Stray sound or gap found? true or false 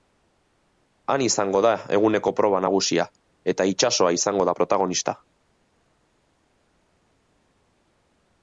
false